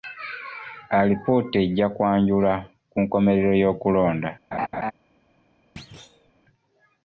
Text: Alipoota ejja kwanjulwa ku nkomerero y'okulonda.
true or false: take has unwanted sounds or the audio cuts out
true